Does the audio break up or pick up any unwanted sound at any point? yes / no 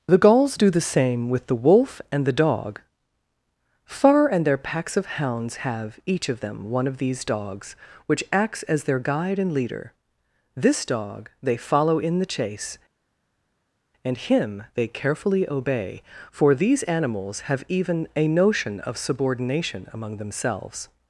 no